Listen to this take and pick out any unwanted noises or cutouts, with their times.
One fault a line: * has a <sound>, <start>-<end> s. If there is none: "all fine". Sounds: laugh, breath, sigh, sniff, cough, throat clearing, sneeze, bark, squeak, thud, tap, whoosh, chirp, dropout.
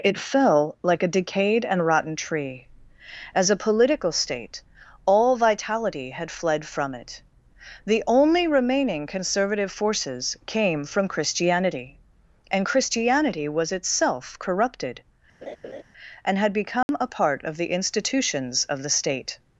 * has a laugh, 15.4-15.8 s
* has a dropout, 16.8-16.9 s